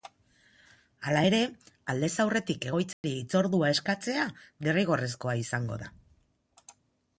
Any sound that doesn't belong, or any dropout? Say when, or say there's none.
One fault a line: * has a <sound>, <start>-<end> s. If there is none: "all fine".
* has a dropout, 2.9-3.0 s